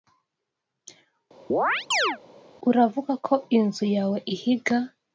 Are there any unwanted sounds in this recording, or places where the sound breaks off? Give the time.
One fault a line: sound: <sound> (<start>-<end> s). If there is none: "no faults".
sound: chirp (1.5-2.2 s)